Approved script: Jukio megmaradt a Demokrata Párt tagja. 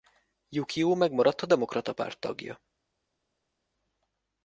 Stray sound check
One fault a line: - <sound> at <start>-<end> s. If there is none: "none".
none